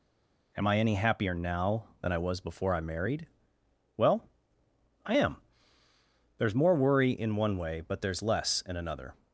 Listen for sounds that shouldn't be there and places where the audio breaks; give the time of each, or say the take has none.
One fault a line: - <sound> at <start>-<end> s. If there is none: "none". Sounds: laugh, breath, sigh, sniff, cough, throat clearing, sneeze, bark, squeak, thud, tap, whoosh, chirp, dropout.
none